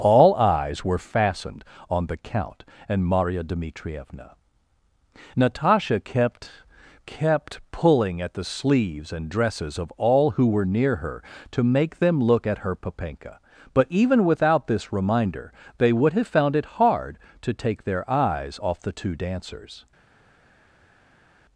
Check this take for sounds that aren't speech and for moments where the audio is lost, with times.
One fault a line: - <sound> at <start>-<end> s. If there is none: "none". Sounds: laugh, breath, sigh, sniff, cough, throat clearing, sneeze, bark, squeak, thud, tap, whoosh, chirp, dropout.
none